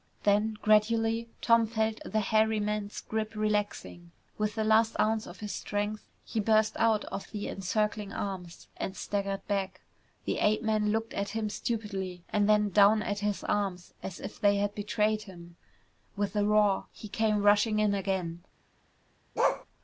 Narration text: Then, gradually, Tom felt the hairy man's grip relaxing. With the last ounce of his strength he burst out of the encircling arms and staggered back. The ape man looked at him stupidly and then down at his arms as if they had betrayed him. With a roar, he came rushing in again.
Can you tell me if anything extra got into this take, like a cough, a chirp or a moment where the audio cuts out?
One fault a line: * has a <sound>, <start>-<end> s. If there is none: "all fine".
* has a bark, 19.4-19.7 s